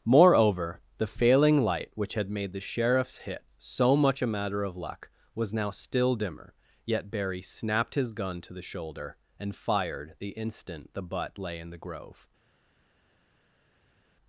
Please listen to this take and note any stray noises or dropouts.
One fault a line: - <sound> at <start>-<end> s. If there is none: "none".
none